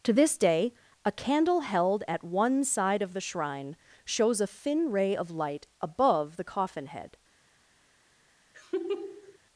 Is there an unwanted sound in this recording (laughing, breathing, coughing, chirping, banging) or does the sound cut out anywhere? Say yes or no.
yes